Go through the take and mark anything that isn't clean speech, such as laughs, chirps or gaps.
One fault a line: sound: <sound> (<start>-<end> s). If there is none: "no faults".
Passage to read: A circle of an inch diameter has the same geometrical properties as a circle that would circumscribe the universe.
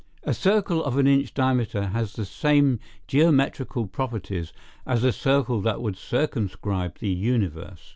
no faults